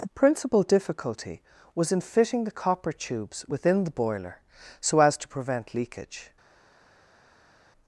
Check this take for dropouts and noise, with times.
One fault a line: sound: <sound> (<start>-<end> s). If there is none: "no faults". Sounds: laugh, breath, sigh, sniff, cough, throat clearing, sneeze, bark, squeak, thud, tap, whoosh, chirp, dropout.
no faults